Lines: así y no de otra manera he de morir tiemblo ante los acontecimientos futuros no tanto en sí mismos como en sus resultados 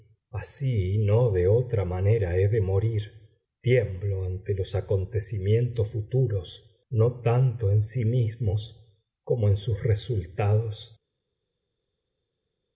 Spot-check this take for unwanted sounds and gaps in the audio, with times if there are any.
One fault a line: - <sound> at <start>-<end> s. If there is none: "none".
none